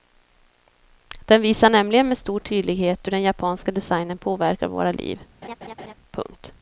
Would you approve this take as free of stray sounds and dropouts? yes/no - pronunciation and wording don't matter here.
no